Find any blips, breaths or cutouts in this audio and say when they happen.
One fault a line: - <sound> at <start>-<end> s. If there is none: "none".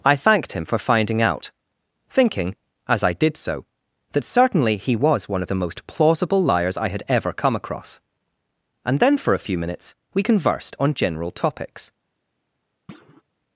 - thud at 12.9-13.2 s